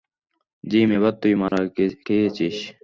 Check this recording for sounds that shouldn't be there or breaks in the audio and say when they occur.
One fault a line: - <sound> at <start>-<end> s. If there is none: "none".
- dropout at 1.5-1.5 s